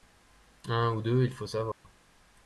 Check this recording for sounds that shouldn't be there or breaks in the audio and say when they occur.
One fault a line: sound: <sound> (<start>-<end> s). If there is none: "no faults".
sound: dropout (1.7-1.8 s)